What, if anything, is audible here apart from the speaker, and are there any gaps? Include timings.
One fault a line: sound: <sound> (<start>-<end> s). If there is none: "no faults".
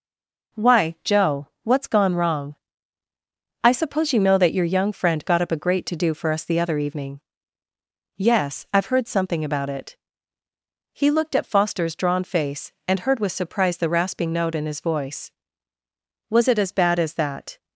no faults